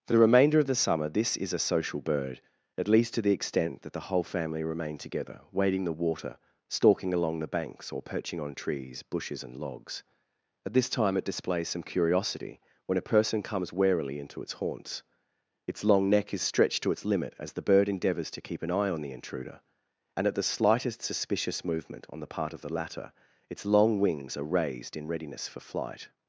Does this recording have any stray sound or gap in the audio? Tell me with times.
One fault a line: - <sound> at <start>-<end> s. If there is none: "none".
none